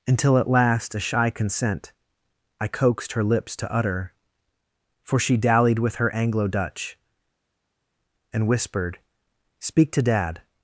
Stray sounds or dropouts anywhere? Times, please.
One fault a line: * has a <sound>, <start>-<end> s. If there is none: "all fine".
all fine